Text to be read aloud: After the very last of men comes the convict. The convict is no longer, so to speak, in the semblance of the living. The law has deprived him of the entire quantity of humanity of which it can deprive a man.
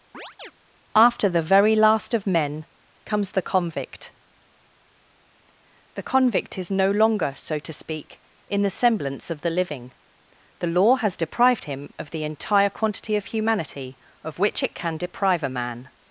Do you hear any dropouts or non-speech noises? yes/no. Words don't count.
yes